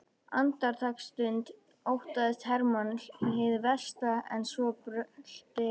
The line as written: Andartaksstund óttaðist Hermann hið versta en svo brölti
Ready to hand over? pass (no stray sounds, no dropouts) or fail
pass